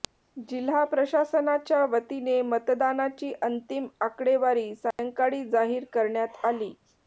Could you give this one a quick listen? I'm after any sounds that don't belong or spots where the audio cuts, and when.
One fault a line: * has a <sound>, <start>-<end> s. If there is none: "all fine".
* has a dropout, 4.9-5.0 s